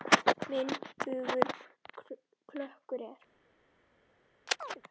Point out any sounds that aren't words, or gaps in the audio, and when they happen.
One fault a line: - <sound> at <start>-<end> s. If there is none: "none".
- chirp at 4.5-4.8 s